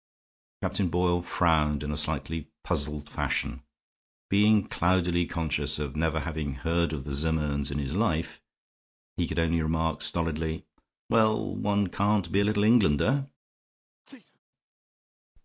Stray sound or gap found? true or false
true